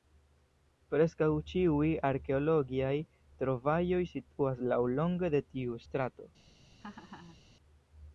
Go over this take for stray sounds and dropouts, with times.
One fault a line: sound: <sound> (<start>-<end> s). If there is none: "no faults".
sound: laugh (6.8-7.4 s)